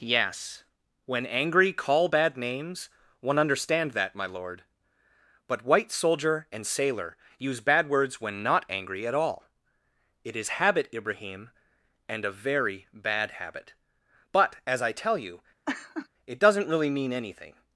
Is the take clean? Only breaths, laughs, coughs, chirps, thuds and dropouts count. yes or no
no